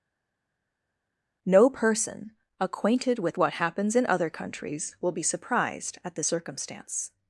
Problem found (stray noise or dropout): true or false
false